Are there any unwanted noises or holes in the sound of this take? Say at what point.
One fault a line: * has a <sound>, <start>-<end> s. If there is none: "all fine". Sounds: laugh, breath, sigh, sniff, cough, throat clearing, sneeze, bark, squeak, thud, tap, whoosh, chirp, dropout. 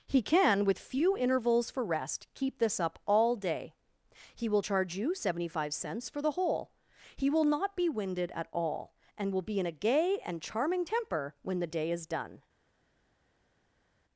all fine